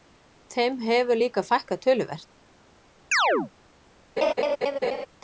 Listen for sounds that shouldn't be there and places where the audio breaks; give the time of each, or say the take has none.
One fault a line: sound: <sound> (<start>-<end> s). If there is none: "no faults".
sound: chirp (3.1-3.5 s)
sound: laugh (4.2-5.1 s)